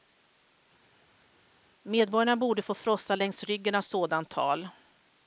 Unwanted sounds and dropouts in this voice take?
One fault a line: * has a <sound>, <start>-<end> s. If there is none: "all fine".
all fine